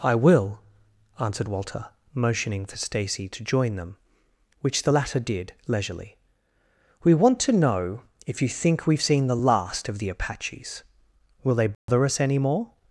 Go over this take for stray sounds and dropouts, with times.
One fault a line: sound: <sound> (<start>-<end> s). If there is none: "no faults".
sound: dropout (11.7-11.9 s)